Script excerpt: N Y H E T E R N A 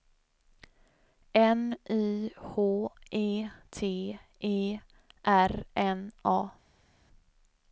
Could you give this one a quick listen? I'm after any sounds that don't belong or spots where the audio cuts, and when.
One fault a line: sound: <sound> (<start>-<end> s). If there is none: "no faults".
no faults